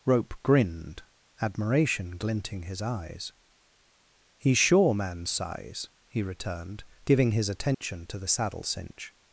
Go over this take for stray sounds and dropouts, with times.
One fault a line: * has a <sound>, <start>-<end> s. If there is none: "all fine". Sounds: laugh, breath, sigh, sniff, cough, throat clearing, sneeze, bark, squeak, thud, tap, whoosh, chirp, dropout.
* has a dropout, 7.7-7.8 s